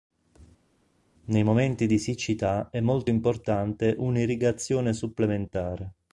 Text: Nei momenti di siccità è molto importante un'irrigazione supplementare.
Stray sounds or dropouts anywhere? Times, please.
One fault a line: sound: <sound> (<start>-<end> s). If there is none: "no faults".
no faults